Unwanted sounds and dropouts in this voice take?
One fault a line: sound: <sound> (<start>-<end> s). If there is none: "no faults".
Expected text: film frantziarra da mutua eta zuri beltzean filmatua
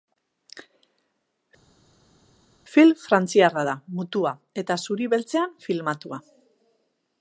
no faults